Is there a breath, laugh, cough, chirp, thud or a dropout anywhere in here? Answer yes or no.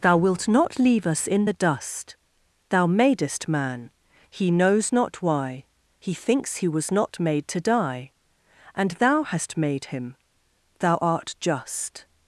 no